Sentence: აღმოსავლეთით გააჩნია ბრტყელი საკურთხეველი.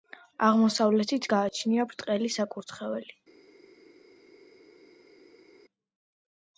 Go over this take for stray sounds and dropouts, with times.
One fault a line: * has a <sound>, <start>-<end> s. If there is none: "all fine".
all fine